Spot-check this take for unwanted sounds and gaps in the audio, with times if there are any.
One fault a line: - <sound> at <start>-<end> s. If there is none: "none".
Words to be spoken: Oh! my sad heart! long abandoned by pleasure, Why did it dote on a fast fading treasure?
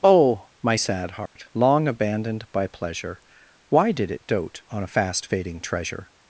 - dropout at 1.3-1.4 s